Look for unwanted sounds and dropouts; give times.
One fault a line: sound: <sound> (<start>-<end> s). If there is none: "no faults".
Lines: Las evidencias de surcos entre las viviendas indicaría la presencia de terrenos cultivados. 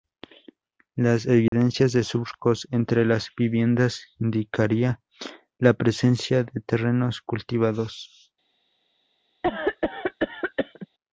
sound: dropout (1.5-1.5 s)
sound: cough (9.4-10.9 s)